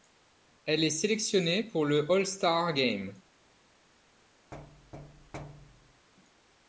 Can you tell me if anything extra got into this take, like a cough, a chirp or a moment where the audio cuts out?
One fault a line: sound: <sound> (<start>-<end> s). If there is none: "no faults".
sound: thud (4.5-6.1 s)